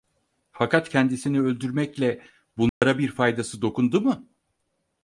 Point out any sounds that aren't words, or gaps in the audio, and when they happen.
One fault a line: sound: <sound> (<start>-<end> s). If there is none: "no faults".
sound: dropout (2.7-2.8 s)